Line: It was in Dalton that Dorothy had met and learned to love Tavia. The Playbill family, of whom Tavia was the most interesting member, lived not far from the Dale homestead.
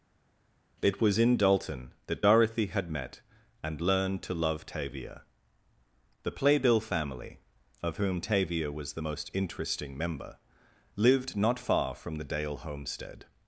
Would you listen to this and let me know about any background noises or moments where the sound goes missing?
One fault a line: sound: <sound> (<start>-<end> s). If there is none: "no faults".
no faults